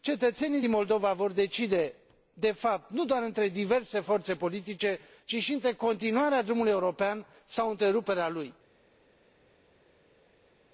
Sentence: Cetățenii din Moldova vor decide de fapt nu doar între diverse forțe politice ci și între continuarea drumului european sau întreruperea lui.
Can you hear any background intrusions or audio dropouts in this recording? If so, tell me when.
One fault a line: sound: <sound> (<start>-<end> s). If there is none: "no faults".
no faults